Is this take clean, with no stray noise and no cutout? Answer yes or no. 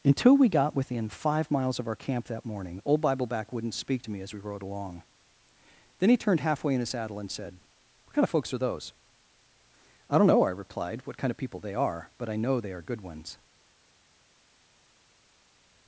yes